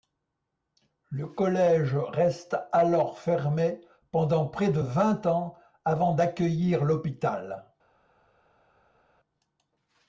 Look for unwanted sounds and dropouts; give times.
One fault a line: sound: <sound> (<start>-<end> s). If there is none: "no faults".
no faults